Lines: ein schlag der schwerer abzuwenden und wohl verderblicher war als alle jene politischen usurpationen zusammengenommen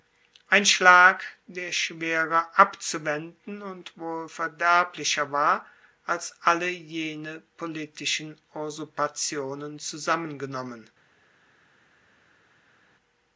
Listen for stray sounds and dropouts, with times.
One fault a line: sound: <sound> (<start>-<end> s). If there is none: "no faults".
no faults